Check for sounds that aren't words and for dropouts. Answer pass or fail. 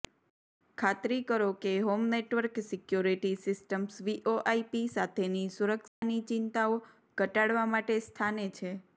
fail